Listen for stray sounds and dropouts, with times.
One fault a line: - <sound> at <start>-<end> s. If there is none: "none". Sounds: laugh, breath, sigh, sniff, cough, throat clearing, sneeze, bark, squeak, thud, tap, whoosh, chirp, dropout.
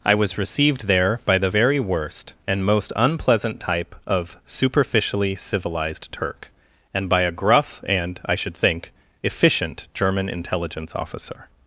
none